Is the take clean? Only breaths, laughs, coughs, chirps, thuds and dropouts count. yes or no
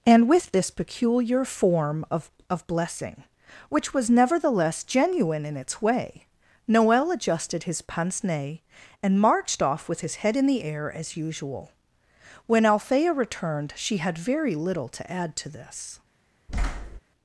no